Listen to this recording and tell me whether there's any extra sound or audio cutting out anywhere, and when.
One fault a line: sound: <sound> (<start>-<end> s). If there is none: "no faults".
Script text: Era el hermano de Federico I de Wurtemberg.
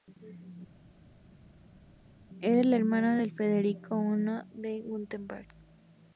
no faults